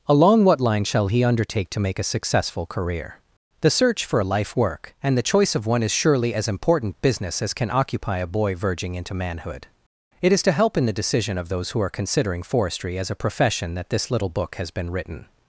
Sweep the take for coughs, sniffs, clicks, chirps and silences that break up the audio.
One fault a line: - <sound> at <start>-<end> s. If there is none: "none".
none